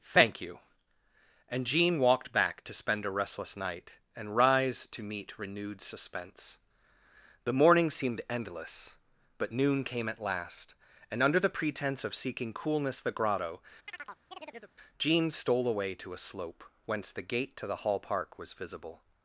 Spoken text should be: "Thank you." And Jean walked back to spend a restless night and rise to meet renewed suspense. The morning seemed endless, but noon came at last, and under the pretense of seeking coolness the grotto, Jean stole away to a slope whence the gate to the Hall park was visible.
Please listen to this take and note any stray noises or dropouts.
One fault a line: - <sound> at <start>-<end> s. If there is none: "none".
- chirp at 13.9-14.8 s